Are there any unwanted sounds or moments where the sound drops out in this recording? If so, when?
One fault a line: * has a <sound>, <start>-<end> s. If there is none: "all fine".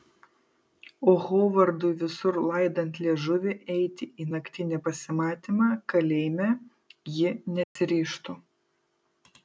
* has a dropout, 7.6-7.8 s